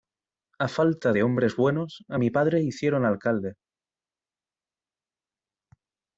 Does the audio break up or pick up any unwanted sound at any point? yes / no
no